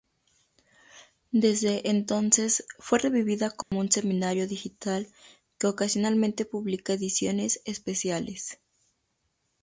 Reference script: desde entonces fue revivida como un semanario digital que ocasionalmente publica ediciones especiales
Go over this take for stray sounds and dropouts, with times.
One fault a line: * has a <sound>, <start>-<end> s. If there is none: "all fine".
* has a dropout, 3.6-3.7 s